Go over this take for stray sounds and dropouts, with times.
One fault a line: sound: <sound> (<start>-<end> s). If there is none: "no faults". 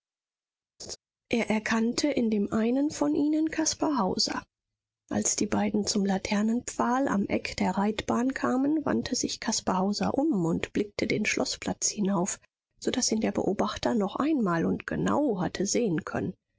sound: laugh (0.8-1.0 s)